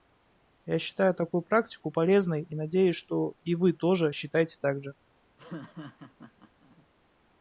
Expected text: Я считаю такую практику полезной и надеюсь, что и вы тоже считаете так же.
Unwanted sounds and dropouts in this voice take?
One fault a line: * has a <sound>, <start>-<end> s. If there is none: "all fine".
* has a laugh, 5.4-6.9 s